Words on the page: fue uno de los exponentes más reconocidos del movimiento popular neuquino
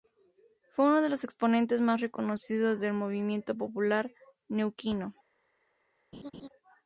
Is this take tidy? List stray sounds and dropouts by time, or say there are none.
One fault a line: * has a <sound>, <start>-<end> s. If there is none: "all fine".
* has a laugh, 6.1-6.5 s